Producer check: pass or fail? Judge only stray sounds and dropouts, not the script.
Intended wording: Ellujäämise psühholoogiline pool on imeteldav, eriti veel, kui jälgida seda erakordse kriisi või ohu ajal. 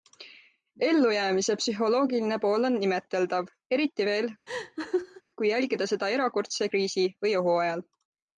fail